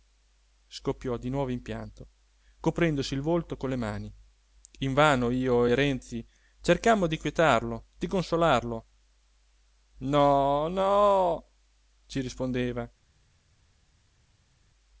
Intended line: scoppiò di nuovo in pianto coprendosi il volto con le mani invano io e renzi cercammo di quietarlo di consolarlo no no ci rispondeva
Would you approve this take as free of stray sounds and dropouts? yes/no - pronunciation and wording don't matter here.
yes